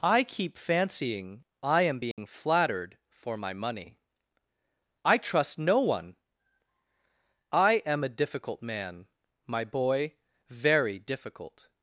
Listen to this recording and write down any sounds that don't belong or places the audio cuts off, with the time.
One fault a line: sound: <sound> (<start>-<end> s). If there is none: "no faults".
sound: dropout (2.1-2.2 s)